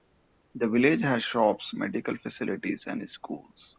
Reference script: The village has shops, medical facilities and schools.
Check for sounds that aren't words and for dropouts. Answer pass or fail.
pass